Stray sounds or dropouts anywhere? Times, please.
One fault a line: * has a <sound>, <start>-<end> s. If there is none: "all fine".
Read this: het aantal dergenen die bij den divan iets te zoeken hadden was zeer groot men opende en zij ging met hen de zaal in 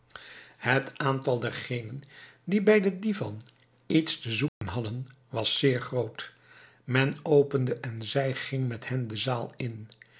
* has a dropout, 4.5-4.6 s